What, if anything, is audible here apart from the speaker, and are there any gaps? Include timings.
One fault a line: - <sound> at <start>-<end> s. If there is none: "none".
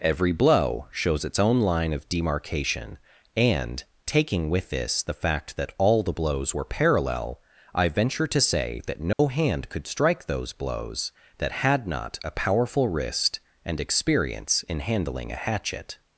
- dropout at 9.1-9.2 s